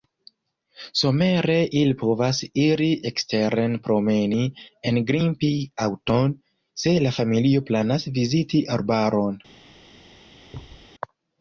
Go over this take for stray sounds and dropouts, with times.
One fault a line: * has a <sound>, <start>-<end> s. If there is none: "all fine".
* has a thud, 10.5-10.9 s